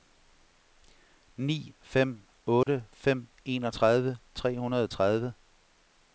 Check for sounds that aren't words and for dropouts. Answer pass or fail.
fail